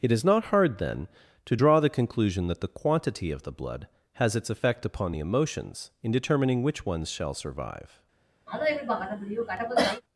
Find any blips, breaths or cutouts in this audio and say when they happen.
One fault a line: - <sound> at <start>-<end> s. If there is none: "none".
- cough at 8.5-10.0 s